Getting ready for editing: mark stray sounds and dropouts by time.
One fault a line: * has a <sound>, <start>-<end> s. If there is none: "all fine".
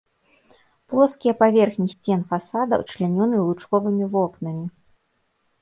all fine